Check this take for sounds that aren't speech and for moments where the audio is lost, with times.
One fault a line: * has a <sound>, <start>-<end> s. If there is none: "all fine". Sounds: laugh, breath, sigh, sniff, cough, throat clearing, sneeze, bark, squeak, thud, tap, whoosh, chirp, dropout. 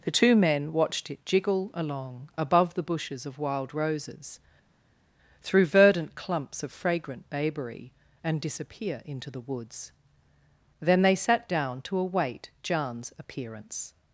all fine